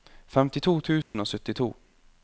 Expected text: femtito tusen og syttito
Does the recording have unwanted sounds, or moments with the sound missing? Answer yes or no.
yes